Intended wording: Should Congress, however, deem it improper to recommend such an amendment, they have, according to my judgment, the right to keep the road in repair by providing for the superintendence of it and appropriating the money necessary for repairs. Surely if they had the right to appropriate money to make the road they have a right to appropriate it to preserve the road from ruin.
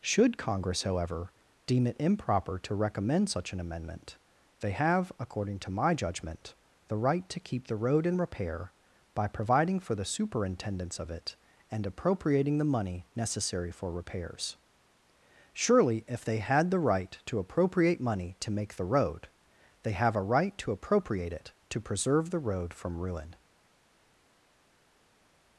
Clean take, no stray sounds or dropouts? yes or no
yes